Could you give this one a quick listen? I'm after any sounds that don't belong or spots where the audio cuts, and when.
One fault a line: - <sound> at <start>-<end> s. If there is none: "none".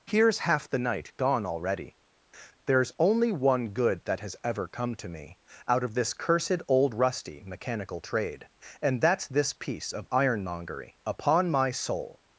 none